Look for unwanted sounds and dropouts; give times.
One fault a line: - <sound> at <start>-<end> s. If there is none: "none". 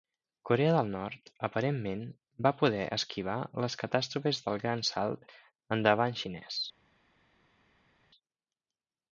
none